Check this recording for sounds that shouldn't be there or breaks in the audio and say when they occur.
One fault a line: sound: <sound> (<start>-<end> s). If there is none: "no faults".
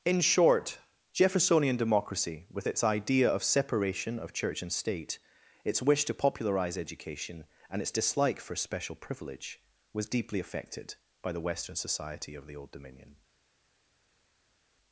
no faults